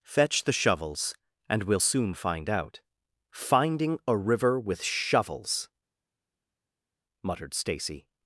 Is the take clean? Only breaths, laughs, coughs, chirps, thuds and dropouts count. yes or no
yes